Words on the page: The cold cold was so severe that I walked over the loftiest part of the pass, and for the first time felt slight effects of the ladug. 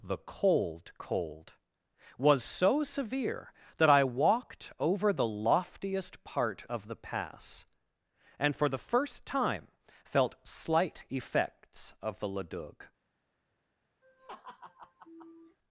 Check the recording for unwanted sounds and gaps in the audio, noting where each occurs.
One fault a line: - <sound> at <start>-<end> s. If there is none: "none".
- laugh at 14.0-15.6 s